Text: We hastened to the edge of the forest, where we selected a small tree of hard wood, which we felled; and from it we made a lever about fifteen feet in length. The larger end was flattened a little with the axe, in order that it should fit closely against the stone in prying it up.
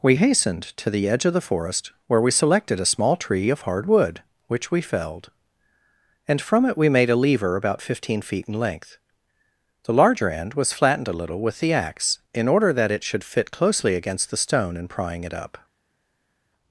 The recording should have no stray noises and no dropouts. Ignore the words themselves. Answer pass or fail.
pass